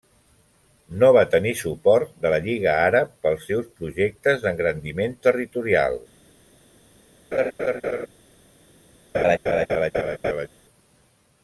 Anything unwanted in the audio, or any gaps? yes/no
yes